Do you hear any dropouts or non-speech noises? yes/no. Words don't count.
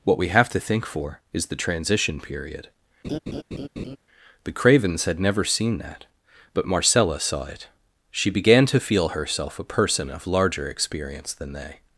yes